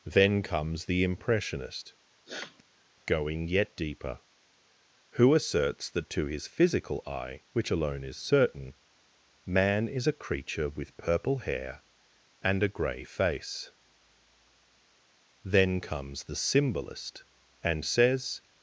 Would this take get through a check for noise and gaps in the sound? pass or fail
fail